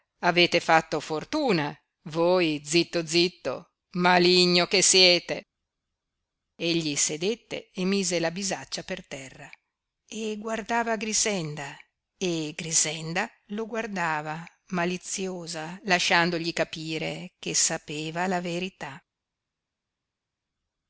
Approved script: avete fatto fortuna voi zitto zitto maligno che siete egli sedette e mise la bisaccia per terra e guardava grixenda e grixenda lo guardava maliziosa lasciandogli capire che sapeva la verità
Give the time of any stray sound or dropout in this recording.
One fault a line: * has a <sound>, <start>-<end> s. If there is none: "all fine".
all fine